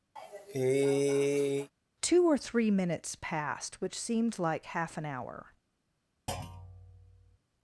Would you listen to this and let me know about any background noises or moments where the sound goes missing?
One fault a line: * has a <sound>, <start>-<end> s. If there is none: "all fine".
* has a cough, 0.2-1.7 s
* has a thud, 6.3-7.4 s